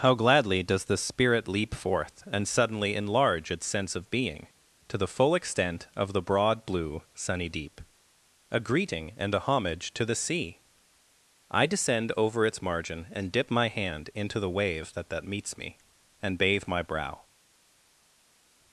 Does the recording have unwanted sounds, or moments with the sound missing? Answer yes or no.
no